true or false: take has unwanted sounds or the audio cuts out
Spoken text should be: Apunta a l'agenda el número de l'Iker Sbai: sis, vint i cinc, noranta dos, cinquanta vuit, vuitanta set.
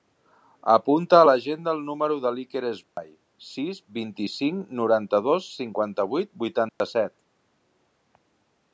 true